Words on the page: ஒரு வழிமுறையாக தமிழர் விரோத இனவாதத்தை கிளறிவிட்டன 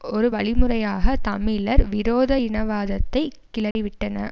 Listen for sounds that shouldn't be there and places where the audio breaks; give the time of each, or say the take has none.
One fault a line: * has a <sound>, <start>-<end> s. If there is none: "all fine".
* has a dropout, 3.7-3.8 s